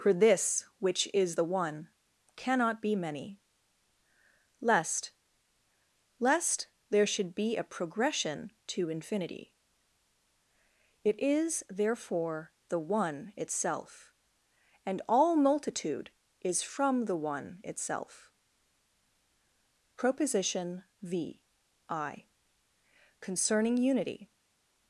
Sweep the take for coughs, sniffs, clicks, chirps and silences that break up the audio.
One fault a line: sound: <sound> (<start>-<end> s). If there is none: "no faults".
no faults